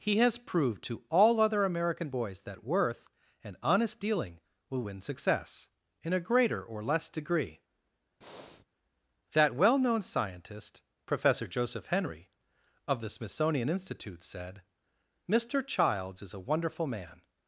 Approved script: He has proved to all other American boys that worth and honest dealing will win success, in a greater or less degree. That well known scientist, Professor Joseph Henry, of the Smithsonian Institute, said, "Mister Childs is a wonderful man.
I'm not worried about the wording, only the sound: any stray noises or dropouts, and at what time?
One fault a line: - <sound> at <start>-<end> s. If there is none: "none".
- breath at 8.2-8.7 s